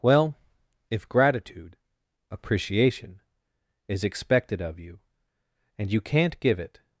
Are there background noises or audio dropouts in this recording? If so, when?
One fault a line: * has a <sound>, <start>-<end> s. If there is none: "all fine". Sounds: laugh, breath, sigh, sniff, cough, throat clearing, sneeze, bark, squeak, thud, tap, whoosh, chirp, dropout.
all fine